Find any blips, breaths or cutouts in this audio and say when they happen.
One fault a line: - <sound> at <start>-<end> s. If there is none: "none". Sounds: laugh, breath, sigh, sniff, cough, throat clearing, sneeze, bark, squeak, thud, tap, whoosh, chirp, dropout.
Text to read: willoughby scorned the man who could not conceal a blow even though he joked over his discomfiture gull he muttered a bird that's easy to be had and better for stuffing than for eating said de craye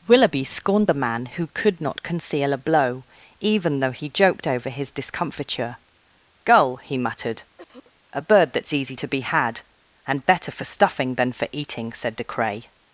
- cough at 7.6-7.9 s